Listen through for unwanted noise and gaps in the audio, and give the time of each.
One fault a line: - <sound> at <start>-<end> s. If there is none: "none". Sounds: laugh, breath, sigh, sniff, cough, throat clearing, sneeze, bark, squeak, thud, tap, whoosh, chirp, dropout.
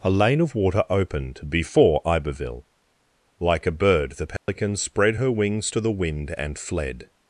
- dropout at 4.4-4.5 s